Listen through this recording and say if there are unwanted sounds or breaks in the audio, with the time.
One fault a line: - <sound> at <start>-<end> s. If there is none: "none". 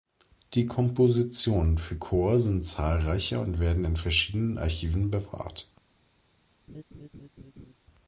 - laugh at 6.7-7.7 s